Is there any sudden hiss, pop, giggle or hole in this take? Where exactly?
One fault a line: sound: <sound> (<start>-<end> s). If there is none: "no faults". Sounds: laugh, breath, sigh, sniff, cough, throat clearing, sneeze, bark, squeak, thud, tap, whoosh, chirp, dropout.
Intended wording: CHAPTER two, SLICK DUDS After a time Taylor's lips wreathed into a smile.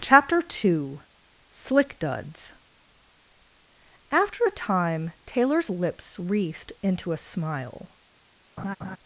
sound: laugh (8.6-9.0 s)